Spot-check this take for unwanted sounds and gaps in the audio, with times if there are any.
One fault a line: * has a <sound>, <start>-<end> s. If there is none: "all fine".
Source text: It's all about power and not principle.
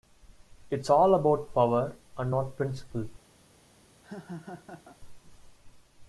* has a laugh, 4.0-5.0 s